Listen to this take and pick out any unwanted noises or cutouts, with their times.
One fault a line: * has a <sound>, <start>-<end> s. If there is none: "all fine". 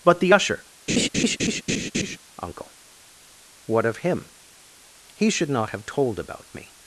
* has a laugh, 0.9-2.2 s